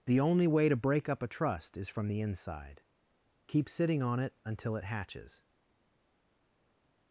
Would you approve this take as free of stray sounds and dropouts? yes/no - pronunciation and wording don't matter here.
yes